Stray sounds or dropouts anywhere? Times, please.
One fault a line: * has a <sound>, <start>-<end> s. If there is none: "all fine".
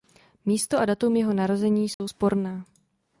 * has a dropout, 1.9-2.0 s